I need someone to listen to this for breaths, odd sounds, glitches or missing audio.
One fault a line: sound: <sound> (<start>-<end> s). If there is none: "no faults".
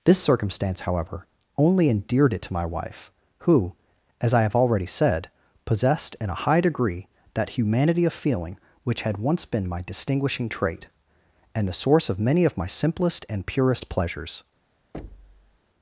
sound: thud (14.9-15.6 s)